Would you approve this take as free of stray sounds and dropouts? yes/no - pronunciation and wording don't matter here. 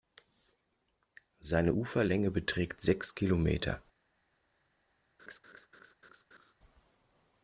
no